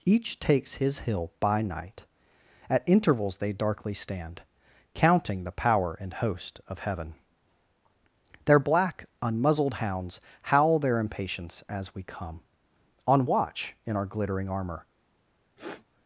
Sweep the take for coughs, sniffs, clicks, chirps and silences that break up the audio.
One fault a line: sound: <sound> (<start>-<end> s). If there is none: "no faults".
sound: sniff (15.6-15.8 s)